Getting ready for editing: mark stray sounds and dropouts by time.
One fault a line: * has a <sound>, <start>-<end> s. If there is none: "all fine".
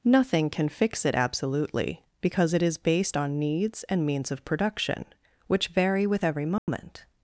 * has a dropout, 6.6-6.7 s